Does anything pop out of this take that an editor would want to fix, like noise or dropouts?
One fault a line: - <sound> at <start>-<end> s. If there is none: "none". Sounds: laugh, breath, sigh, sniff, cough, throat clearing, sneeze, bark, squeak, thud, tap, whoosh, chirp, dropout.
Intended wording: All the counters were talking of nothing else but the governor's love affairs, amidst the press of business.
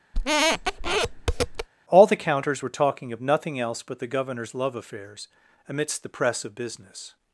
- squeak at 0.1-1.7 s